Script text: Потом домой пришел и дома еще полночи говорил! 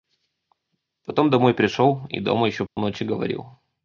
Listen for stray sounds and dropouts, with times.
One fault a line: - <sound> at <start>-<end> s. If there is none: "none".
- dropout at 2.7-2.8 s